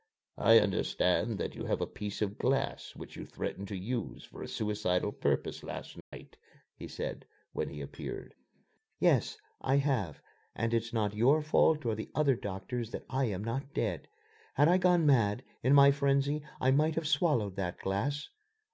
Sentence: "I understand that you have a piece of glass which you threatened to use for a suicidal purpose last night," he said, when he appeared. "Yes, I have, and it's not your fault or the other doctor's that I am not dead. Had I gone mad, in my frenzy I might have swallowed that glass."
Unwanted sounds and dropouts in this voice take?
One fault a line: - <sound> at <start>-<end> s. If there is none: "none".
- dropout at 6.0-6.1 s